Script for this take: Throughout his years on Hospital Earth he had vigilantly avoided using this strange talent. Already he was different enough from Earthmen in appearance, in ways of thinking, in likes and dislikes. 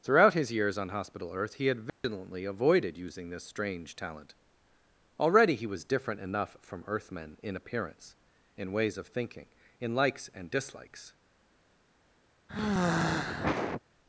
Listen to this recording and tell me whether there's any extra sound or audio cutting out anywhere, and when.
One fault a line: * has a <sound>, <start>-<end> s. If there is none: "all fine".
* has a dropout, 1.9-2.0 s
* has a sigh, 12.5-13.8 s